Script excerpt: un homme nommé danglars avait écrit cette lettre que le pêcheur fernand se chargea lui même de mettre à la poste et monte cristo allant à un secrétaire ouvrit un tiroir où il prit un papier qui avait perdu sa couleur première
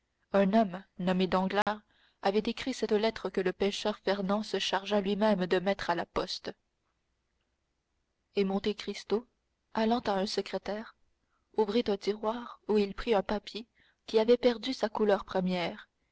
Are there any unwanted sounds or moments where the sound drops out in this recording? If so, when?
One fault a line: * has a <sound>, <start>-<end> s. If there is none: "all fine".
* has a dropout, 1.6-1.7 s